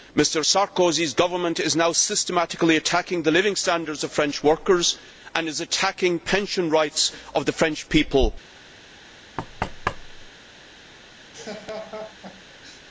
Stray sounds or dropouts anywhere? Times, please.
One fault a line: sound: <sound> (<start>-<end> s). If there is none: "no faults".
sound: thud (9.4-10.3 s)
sound: laugh (11.3-12.8 s)